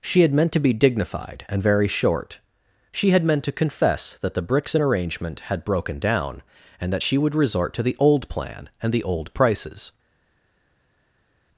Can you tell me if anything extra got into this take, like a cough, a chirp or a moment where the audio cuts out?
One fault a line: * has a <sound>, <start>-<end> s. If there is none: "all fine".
all fine